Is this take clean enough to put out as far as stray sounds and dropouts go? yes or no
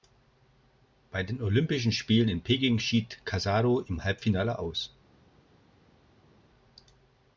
yes